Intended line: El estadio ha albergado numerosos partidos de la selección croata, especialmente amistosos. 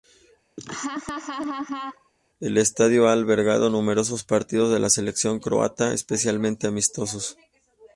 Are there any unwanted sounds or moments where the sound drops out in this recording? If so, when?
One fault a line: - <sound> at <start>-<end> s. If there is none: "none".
- laugh at 0.6-2.1 s